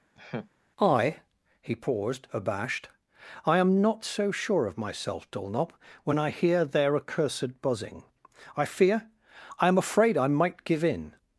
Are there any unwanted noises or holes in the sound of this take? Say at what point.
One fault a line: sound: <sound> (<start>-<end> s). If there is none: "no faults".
sound: laugh (0.2-0.5 s)